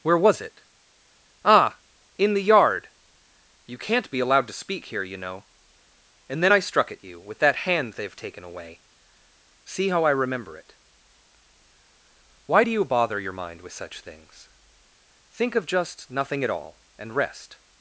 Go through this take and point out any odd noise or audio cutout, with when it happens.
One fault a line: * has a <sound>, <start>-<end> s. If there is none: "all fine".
all fine